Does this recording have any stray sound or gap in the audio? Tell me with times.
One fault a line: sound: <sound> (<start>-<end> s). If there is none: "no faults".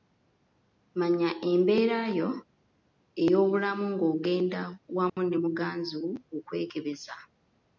sound: dropout (5.1-5.2 s)